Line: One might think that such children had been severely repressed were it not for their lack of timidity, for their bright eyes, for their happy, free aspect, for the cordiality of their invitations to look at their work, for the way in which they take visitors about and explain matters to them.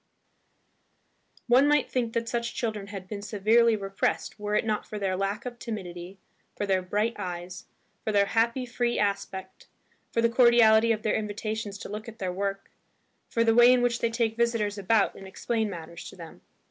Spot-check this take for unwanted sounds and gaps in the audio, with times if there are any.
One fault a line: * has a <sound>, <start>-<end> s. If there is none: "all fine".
all fine